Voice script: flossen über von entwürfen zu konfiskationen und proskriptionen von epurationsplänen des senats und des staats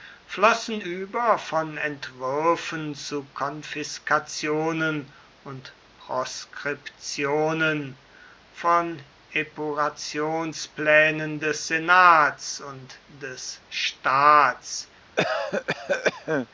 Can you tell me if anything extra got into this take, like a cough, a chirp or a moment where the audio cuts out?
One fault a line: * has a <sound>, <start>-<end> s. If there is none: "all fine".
* has a cough, 15.2-16.5 s